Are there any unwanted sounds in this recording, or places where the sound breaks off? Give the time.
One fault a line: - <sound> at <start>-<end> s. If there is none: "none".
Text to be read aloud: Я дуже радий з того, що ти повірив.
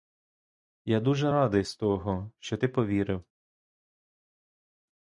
none